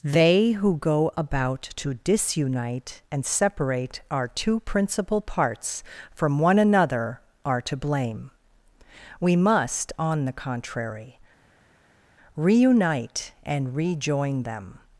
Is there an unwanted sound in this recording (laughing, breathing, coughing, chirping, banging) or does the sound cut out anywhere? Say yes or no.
no